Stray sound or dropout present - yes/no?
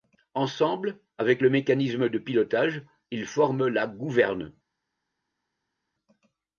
no